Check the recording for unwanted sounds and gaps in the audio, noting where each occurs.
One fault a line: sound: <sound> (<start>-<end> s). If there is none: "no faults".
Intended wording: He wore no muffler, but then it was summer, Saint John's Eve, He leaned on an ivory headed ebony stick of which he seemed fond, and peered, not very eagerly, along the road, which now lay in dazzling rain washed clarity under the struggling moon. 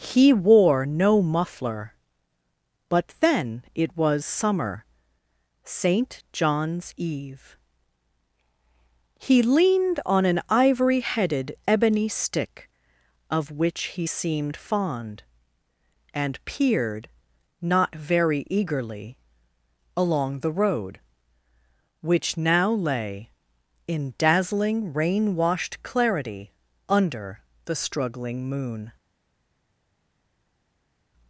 no faults